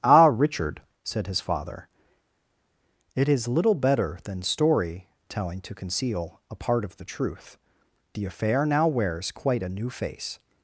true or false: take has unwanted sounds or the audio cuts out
false